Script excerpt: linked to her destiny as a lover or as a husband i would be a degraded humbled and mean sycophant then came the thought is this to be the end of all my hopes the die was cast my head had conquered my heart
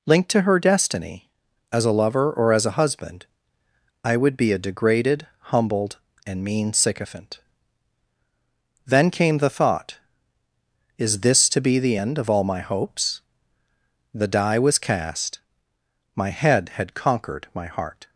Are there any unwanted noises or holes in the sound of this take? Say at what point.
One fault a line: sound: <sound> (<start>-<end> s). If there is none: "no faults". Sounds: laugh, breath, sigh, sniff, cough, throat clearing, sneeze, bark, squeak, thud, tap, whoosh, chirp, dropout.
no faults